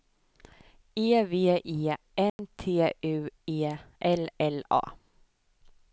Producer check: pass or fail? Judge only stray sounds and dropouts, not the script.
fail